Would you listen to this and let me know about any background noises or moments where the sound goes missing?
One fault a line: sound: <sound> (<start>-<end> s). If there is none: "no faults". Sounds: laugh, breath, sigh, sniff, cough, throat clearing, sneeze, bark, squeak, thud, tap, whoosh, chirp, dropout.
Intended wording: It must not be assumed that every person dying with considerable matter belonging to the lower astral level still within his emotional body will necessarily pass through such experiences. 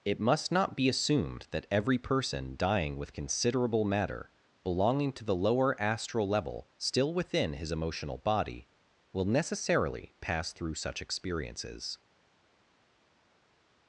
no faults